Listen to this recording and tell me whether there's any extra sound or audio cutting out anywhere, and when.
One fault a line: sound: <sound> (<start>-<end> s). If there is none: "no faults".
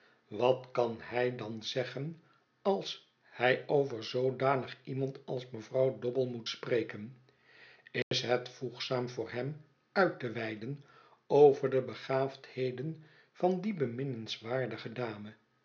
sound: dropout (8.0-8.1 s)